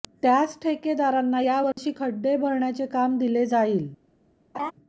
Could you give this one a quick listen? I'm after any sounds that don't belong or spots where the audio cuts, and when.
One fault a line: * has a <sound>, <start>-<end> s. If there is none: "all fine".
* has a dropout, 1.7-1.8 s
* has a laugh, 4.5-4.7 s